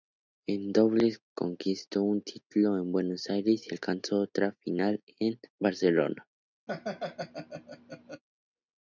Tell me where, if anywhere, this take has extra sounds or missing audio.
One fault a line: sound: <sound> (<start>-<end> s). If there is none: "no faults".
sound: laugh (6.7-8.2 s)